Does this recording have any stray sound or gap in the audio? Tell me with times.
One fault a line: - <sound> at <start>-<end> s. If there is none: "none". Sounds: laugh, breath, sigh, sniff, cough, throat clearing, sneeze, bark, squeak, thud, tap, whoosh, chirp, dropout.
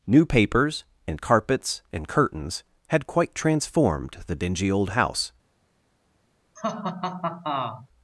- laugh at 6.6-7.9 s